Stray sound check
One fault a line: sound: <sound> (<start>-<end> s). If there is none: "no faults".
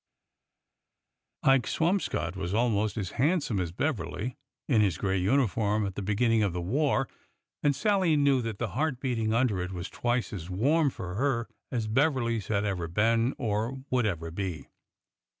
no faults